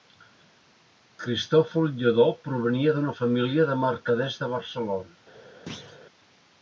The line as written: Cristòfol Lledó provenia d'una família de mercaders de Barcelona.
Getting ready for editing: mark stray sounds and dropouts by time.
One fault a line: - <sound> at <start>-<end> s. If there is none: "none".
- thud at 5.7-6.0 s